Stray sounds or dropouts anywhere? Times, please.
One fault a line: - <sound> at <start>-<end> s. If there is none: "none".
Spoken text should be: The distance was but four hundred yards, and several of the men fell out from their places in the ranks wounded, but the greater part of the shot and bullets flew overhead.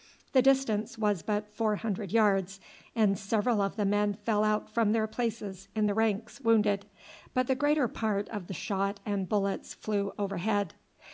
none